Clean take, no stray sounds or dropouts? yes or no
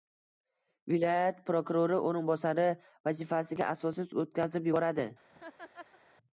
no